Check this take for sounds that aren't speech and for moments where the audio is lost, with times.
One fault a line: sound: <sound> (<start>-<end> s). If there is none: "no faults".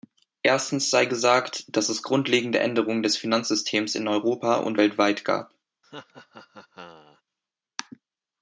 sound: laugh (5.8-7.2 s)